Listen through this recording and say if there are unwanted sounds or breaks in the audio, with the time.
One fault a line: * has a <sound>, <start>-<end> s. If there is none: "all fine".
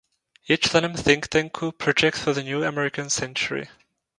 all fine